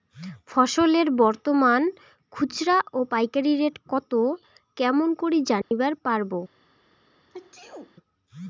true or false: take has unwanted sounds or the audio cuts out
true